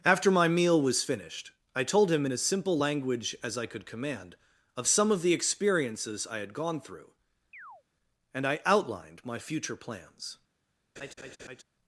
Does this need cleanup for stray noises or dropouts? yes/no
yes